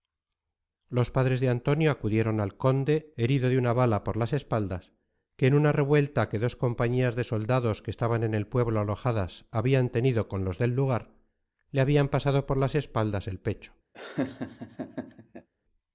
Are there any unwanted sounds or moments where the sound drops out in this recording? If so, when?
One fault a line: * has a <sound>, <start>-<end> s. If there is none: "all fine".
* has a laugh, 13.9-15.5 s